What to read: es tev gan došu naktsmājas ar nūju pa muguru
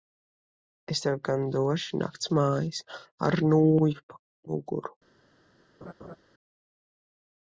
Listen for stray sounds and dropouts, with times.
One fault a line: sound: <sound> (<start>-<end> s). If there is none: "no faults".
sound: laugh (5.8-6.2 s)